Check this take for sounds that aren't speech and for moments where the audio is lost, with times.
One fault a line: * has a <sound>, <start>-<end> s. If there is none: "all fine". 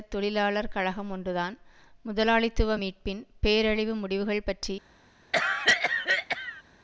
* has a cough, 5.3-6.6 s